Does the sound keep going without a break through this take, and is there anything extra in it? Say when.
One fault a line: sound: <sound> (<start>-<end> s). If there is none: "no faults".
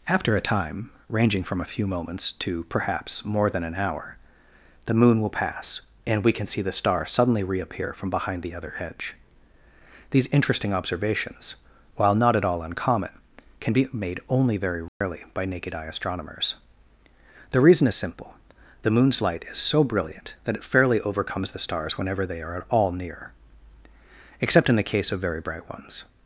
sound: dropout (14.9-15.0 s)